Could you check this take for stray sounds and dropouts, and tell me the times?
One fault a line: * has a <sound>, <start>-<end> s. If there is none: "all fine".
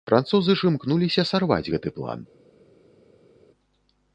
all fine